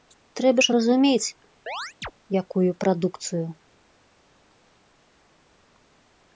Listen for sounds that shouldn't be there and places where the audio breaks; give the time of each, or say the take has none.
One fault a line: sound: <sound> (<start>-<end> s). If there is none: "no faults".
sound: chirp (1.7-2.1 s)